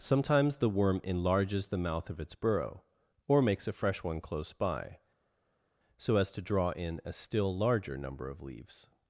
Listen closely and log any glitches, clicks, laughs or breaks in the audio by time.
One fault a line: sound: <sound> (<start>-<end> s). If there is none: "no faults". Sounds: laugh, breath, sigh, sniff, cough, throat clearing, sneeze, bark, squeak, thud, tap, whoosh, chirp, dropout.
no faults